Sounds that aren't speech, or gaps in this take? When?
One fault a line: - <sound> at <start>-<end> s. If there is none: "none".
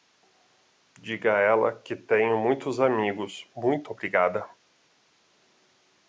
none